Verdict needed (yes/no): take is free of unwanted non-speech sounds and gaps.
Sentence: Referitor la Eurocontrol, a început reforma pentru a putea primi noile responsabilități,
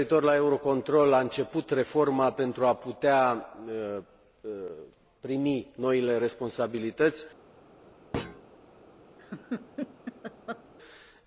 no